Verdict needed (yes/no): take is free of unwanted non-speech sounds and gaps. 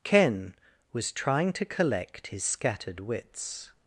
yes